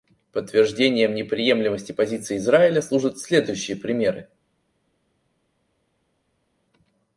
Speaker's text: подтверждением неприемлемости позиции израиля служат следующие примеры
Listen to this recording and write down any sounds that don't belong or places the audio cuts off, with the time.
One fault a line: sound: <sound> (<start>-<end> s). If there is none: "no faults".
no faults